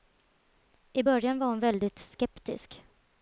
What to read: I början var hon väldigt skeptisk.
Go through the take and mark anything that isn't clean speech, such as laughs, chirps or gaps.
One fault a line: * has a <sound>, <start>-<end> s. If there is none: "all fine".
all fine